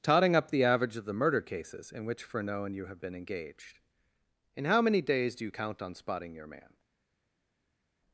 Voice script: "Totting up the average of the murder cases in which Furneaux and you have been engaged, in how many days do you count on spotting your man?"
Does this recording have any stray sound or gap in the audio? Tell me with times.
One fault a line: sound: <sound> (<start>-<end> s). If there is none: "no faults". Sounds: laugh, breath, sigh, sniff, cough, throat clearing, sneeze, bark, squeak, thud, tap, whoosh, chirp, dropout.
no faults